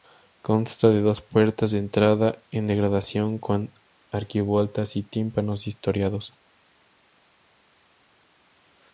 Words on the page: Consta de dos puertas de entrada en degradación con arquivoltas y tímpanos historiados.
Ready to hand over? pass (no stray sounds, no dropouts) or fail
pass